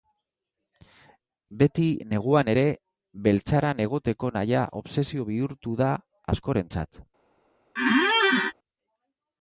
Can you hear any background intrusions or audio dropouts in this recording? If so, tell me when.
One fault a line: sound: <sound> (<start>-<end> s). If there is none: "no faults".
sound: squeak (7.8-8.5 s)